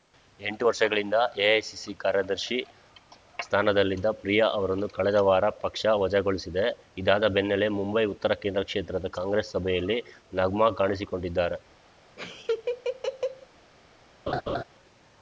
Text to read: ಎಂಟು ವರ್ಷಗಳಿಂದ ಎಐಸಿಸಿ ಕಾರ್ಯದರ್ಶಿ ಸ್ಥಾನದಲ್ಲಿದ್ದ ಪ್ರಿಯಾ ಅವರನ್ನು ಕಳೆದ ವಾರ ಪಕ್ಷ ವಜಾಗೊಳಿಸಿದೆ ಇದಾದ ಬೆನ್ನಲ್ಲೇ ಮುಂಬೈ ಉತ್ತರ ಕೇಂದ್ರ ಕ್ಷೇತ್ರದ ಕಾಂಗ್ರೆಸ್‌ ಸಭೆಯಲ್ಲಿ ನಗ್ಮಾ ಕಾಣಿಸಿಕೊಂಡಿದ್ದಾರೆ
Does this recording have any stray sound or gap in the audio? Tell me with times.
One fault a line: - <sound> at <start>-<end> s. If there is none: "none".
- laugh at 12.2-13.5 s
- laugh at 14.3-14.6 s